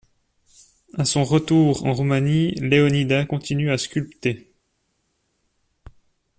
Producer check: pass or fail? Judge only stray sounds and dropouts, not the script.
pass